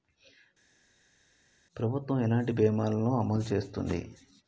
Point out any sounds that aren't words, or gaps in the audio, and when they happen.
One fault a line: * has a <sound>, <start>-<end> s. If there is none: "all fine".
all fine